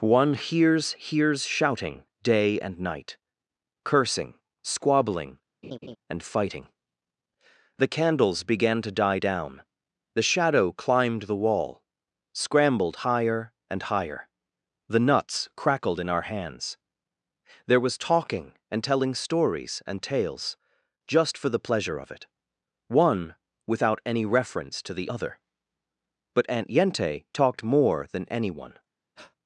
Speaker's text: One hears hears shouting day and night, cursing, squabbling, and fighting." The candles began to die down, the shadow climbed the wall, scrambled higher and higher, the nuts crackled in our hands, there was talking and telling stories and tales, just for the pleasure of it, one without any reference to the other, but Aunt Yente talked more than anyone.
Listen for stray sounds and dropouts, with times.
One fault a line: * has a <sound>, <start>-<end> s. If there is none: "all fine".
* has a laugh, 5.6-6.0 s
* has a breath, 29.2-29.4 s